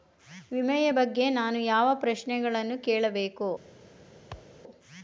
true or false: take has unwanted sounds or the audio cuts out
true